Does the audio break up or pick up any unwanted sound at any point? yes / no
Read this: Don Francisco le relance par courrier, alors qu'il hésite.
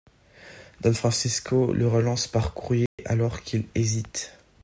yes